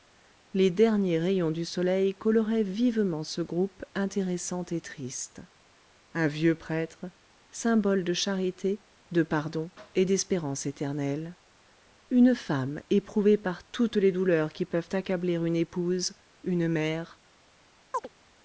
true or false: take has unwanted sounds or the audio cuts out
true